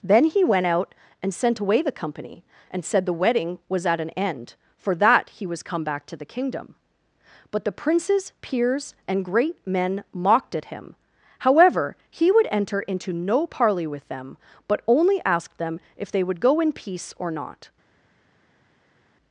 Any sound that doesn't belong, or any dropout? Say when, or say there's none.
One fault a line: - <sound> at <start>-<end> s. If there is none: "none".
none